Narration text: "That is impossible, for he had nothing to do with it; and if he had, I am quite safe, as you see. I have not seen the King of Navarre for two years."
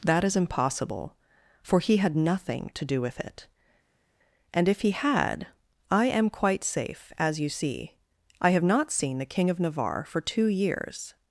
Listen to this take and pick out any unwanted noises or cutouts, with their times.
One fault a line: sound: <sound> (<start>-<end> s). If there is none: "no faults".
no faults